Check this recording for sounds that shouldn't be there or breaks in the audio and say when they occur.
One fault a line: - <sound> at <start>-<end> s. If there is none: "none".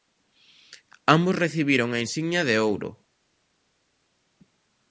none